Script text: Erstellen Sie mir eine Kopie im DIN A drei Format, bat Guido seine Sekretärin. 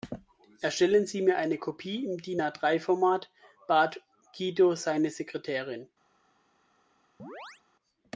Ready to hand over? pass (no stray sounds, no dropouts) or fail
fail